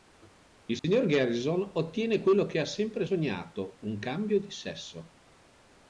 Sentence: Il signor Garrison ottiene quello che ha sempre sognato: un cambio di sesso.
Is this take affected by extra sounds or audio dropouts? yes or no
yes